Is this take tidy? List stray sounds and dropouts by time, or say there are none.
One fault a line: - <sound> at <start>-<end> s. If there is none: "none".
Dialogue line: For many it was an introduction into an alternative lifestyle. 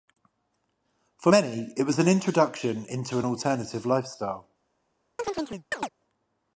- chirp at 5.2-5.9 s